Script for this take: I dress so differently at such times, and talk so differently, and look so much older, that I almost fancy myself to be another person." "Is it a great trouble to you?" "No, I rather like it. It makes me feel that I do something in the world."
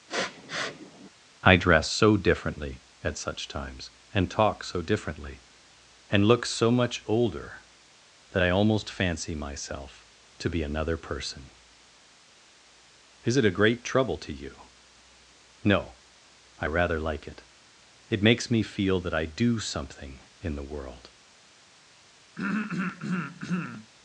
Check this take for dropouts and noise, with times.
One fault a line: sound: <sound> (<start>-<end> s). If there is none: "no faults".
sound: sniff (0.1-1.1 s)
sound: throat clearing (22.4-23.9 s)